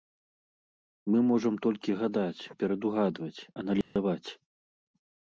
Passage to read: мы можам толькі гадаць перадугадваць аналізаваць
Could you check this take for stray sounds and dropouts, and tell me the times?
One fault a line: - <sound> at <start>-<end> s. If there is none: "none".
- dropout at 3.8-4.0 s